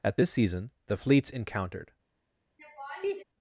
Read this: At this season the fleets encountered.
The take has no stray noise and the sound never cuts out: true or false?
false